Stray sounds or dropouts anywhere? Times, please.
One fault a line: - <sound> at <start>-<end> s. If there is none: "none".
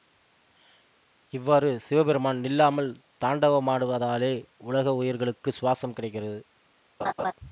- laugh at 7.0-7.3 s